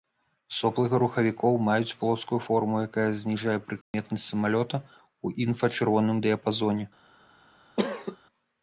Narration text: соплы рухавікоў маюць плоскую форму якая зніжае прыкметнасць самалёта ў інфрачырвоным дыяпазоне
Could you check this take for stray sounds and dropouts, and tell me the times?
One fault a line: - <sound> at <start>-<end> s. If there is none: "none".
- dropout at 3.8-3.9 s
- cough at 7.8-8.2 s